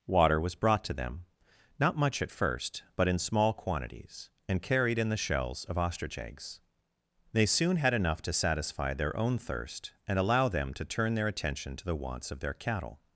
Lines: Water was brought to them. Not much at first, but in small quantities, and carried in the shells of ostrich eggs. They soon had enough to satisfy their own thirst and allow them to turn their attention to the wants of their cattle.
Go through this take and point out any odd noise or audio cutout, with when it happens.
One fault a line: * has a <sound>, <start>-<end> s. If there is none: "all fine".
all fine